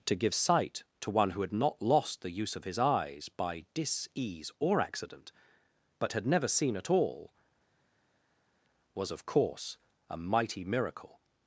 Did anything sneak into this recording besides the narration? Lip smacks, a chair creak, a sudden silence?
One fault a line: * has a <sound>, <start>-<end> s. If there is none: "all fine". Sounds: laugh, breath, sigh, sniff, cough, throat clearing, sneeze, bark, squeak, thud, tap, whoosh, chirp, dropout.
all fine